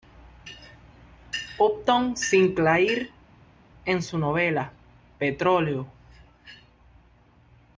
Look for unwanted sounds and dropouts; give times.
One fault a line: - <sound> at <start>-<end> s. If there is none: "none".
none